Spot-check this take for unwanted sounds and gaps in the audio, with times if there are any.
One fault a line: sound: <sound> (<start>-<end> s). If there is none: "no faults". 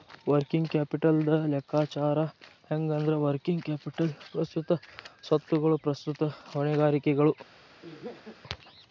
sound: laugh (7.8-8.4 s)